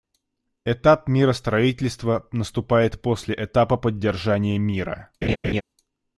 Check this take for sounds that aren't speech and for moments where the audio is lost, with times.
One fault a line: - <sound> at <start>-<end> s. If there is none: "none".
- laugh at 5.2-5.6 s